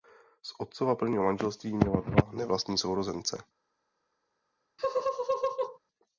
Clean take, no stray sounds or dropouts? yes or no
no